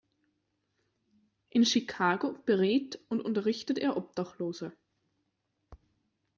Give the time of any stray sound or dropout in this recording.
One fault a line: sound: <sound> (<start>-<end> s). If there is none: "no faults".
no faults